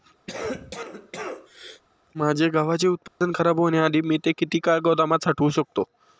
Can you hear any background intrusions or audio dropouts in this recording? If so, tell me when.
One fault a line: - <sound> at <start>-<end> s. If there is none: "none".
- cough at 0.3-1.8 s
- dropout at 3.1-3.2 s